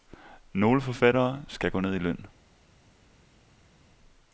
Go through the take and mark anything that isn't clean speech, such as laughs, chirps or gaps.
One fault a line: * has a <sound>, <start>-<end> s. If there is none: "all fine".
all fine